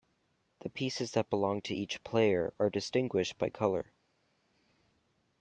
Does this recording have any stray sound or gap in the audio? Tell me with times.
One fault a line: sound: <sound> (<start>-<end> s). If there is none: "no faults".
no faults